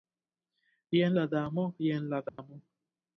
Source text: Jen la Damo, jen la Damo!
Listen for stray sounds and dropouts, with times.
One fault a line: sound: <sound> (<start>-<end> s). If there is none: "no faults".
sound: dropout (2.3-2.4 s)